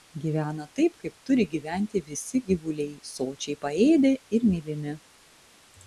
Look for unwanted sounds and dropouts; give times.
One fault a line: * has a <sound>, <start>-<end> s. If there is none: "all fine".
all fine